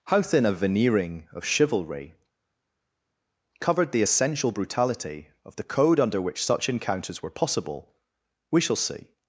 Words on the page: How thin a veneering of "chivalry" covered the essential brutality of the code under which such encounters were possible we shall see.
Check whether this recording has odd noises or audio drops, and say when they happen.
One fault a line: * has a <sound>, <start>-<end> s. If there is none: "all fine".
all fine